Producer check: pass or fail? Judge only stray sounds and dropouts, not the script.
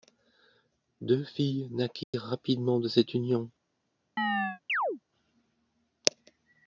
fail